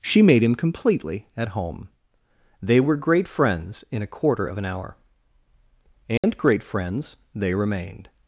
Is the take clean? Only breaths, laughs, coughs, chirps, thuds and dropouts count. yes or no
no